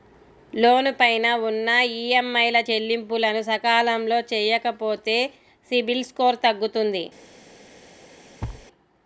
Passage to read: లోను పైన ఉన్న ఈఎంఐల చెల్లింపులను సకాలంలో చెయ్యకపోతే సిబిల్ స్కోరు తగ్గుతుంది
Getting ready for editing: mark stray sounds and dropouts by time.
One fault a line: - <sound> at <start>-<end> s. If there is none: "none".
- thud at 8.4-8.7 s